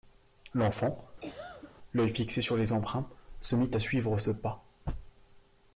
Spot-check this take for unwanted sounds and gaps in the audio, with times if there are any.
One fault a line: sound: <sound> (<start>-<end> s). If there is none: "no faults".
sound: cough (1.2-1.7 s)